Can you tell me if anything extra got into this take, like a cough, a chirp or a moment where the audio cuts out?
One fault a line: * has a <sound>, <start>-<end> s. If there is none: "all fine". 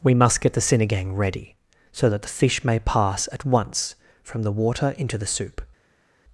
all fine